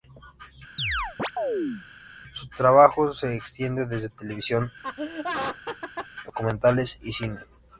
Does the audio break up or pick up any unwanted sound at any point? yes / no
yes